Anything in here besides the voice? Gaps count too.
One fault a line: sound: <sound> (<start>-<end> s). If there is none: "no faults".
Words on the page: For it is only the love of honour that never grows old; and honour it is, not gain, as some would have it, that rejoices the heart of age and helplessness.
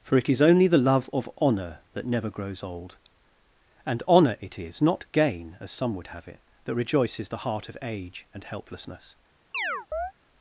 sound: chirp (9.5-10.1 s)